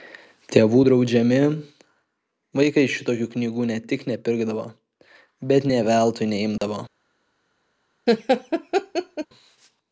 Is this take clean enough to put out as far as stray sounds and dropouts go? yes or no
no